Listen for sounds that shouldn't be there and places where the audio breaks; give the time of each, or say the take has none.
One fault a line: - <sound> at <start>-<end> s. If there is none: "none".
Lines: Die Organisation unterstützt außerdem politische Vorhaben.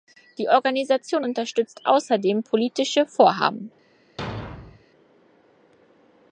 - thud at 4.2-4.8 s